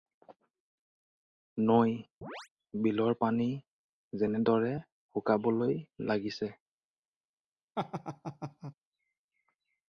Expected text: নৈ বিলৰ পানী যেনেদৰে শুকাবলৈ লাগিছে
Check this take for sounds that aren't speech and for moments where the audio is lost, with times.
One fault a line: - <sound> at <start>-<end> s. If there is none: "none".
- chirp at 2.2-2.5 s
- laugh at 7.8-8.7 s